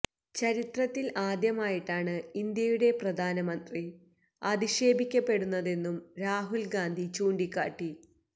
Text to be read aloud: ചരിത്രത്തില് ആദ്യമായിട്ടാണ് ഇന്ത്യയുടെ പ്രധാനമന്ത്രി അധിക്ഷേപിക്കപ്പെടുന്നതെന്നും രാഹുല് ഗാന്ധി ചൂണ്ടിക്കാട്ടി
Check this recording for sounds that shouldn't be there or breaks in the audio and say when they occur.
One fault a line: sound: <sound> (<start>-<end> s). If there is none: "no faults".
no faults